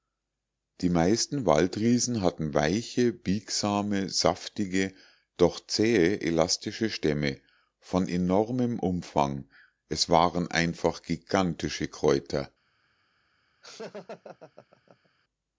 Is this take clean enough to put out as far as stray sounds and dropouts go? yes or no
no